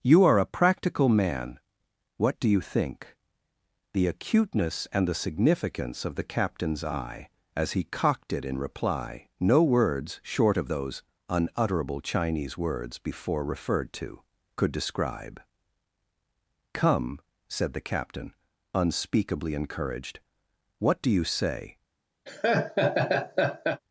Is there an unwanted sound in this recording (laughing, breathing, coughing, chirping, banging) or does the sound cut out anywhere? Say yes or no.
yes